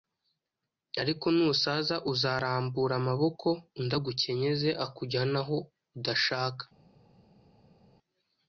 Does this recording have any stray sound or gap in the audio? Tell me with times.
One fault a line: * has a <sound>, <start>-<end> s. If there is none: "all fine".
all fine